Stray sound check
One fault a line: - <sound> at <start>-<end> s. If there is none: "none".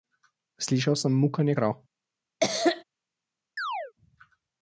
- cough at 2.4-2.8 s
- chirp at 3.6-3.9 s